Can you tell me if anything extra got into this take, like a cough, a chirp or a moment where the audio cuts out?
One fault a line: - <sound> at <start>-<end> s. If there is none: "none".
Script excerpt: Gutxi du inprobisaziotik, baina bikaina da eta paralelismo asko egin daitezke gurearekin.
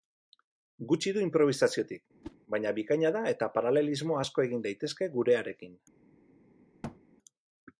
- whoosh at 2.2-2.4 s
- thud at 6.8-7.0 s